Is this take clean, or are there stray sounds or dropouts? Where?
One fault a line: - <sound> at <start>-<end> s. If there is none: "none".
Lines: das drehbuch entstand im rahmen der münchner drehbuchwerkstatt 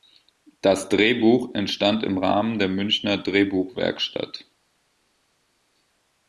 none